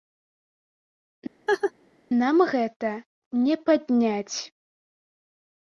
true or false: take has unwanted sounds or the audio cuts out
true